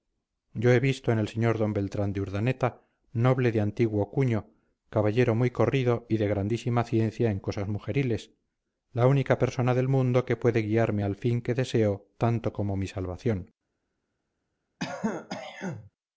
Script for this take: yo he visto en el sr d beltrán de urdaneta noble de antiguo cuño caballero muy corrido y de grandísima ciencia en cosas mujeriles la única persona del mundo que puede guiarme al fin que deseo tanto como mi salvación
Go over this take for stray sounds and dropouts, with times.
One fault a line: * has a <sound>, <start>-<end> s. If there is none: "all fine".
* has a throat clearing, 14.8-15.9 s